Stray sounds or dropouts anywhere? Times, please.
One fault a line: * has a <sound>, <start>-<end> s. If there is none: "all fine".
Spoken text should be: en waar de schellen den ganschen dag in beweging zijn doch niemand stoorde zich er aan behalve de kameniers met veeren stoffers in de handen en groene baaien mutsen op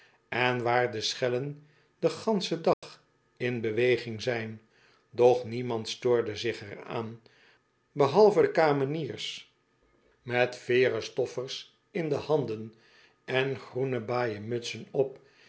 * has a dropout, 2.7-2.8 s